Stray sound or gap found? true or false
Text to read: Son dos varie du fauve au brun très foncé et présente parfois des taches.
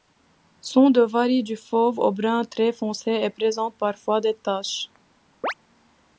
true